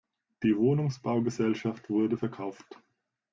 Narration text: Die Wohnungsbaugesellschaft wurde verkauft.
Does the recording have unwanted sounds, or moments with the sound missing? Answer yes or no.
no